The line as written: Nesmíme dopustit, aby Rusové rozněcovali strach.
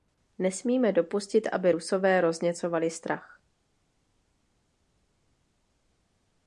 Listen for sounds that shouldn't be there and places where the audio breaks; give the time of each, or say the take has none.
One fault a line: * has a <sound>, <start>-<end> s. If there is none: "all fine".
all fine